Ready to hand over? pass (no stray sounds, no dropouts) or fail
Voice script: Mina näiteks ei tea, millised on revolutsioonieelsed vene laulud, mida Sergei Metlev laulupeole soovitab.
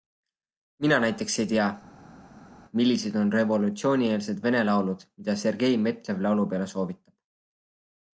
pass